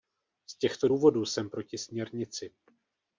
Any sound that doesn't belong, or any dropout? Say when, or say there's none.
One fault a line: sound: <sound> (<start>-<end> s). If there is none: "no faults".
no faults